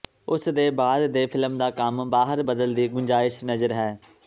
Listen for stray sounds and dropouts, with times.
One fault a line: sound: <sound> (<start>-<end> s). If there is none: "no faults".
no faults